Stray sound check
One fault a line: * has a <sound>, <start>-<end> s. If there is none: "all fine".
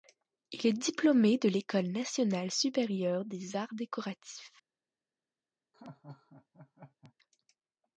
* has a laugh, 5.7-7.1 s